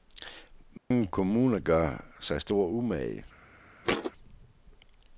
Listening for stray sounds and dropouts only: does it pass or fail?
fail